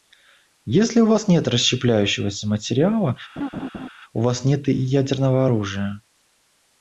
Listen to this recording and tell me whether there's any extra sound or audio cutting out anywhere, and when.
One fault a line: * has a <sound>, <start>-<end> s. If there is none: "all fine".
* has a laugh, 3.4-3.9 s